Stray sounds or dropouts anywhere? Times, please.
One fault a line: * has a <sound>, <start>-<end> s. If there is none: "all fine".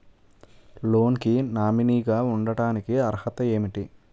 all fine